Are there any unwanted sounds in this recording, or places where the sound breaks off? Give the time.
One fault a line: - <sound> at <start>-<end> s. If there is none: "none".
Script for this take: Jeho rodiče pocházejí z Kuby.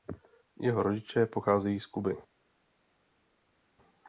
none